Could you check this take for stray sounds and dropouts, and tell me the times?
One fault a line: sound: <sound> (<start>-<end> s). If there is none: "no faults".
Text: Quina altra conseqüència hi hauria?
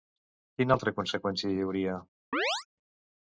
sound: chirp (2.3-2.7 s)